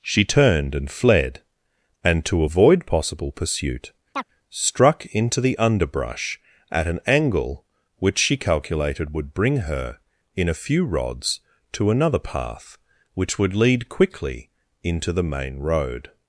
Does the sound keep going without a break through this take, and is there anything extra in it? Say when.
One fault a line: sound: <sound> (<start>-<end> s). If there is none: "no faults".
sound: chirp (4.1-4.2 s)